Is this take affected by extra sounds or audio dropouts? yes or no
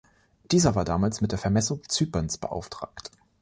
no